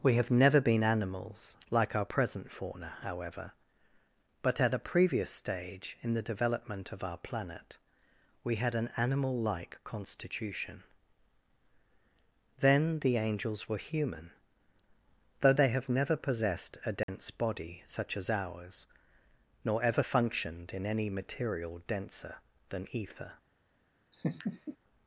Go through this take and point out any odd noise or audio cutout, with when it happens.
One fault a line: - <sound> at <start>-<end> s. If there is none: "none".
- dropout at 17.0-17.1 s
- laugh at 24.1-24.8 s